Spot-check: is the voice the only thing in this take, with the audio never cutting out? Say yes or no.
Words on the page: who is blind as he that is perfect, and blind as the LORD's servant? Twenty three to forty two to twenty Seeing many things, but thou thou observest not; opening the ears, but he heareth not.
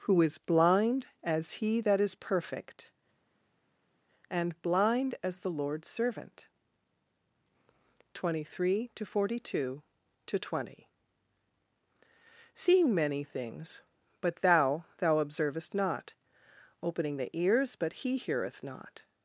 yes